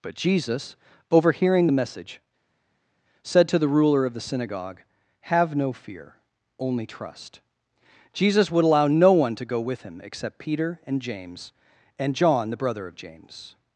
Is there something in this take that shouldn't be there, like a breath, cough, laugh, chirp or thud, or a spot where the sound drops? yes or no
no